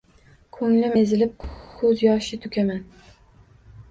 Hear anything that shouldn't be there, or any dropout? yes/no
yes